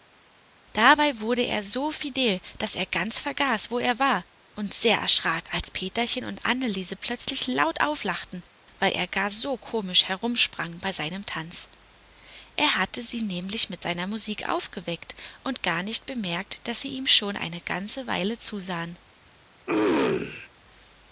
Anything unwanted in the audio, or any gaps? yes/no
yes